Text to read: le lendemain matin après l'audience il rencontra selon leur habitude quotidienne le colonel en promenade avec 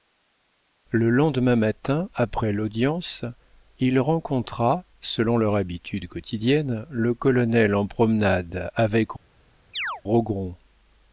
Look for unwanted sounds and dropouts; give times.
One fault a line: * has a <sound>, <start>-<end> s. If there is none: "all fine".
* has a chirp, 9.7-10.0 s